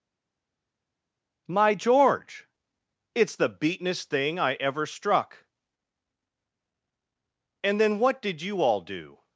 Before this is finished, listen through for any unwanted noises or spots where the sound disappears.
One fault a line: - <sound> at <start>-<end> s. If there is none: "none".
none